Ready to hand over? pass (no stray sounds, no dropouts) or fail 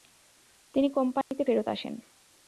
fail